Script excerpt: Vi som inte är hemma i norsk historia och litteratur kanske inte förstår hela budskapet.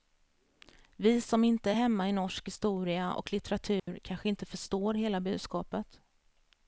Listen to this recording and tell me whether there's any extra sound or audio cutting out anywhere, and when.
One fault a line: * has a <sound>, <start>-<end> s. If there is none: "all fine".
* has a dropout, 3.8-3.9 s